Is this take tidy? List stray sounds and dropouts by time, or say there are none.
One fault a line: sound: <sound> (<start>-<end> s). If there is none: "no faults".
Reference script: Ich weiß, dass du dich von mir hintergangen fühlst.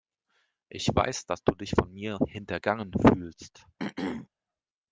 sound: throat clearing (3.8-4.3 s)